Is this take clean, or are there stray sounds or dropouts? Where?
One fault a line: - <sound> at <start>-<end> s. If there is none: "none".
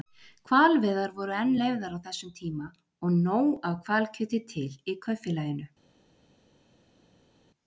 none